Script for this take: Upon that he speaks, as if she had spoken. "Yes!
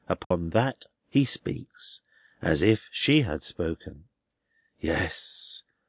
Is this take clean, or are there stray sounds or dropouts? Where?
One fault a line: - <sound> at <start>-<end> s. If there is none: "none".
- dropout at 0.2-0.3 s